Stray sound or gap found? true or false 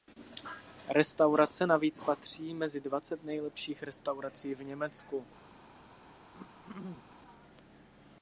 true